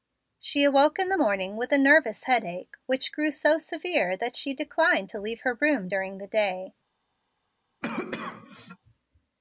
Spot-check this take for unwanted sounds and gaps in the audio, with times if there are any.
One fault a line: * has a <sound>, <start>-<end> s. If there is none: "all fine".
* has a cough, 7.8-8.8 s